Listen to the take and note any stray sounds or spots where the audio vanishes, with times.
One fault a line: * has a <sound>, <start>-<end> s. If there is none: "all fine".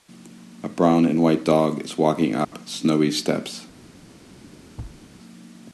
* has a dropout, 2.4-2.5 s
* has a thud, 4.8-5.0 s